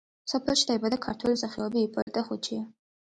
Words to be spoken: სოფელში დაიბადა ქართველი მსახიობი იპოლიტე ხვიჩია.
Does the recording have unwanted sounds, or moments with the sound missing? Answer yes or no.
yes